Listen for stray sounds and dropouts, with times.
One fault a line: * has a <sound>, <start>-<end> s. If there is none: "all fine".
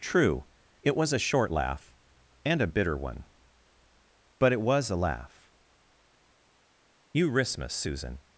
all fine